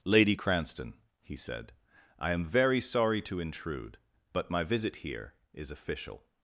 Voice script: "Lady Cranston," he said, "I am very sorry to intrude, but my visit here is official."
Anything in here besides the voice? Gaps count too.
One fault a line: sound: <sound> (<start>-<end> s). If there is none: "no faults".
no faults